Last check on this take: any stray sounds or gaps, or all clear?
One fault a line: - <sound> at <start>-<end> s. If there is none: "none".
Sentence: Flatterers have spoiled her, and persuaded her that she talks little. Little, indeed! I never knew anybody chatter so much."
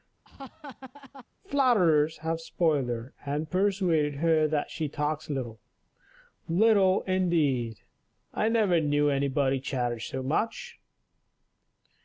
- laugh at 0.2-1.2 s